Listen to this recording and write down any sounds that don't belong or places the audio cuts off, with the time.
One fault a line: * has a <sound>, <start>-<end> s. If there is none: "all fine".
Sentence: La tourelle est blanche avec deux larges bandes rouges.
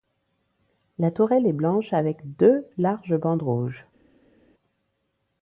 all fine